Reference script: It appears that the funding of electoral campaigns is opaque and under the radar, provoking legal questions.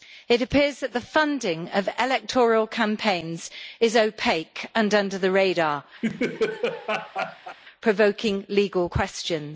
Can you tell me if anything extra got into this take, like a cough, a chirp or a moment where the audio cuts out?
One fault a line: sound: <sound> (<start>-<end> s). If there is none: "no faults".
sound: laugh (6.0-7.6 s)